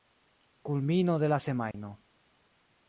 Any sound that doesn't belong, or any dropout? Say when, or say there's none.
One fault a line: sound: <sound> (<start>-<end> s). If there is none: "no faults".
sound: dropout (1.7-1.7 s)